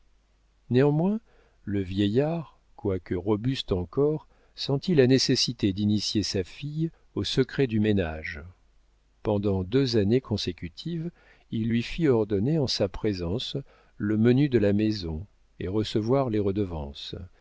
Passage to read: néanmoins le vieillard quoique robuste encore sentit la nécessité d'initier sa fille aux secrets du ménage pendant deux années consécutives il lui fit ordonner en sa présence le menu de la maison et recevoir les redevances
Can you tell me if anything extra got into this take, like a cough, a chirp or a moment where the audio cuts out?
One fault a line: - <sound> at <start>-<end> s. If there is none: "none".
none